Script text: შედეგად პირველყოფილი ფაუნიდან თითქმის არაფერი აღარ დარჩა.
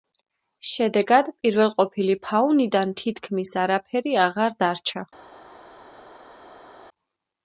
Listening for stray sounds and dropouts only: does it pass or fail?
pass